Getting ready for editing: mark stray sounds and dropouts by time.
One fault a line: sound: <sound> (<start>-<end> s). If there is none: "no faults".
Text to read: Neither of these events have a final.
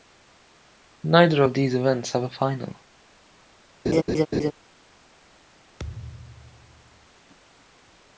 sound: laugh (3.8-4.5 s)
sound: thud (5.8-7.1 s)